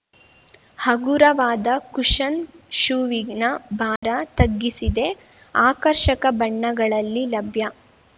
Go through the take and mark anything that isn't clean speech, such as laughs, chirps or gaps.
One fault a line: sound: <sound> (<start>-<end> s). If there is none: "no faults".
sound: dropout (4.0-4.0 s)